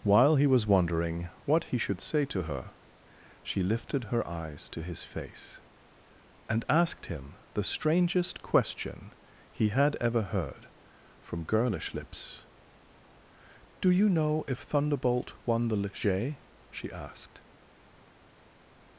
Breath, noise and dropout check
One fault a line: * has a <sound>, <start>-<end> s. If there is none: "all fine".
all fine